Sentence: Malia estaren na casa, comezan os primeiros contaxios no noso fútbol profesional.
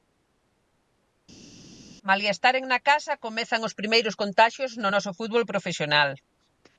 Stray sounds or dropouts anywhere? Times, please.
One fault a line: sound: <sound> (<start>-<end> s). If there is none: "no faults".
no faults